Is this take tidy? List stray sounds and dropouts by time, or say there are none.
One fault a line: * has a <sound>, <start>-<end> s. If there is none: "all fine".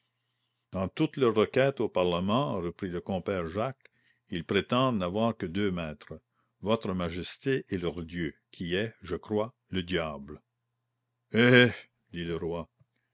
all fine